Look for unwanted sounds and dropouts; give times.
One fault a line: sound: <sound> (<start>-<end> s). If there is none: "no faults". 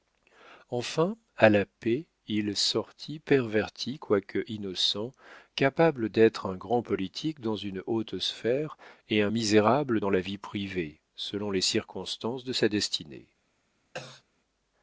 sound: cough (13.9-14.2 s)